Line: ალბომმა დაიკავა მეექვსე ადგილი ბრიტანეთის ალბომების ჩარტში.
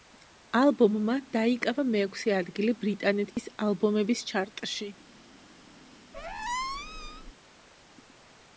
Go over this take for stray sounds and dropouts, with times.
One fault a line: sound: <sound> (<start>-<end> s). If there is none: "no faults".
sound: dropout (3.3-3.4 s)
sound: squeak (6.1-7.3 s)